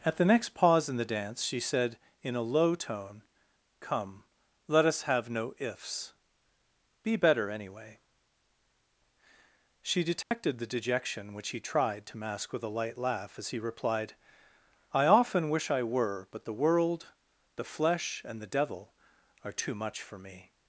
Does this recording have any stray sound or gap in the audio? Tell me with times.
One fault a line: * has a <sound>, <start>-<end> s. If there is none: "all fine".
* has a dropout, 10.2-10.3 s